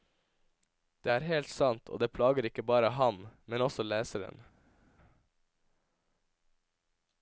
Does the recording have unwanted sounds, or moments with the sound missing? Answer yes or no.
no